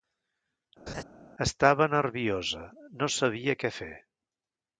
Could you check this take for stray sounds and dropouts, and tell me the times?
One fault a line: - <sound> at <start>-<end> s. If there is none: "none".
- laugh at 0.9-1.0 s